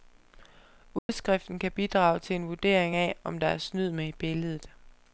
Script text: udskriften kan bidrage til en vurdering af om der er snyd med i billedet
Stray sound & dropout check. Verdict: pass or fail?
fail